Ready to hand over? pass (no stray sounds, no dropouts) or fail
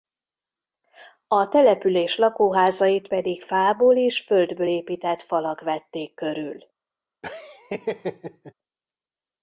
fail